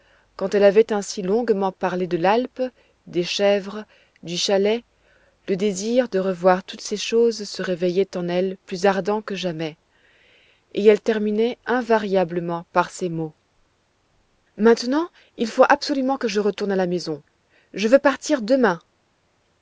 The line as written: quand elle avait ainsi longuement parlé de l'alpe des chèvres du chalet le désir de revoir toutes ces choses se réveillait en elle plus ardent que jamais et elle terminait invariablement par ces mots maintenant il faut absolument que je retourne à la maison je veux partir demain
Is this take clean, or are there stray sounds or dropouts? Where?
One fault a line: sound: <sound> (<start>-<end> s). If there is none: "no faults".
no faults